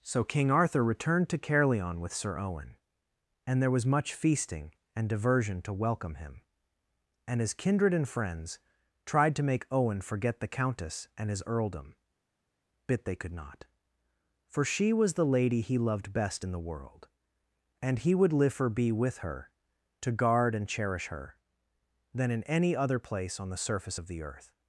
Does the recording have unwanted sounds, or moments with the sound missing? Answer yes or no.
no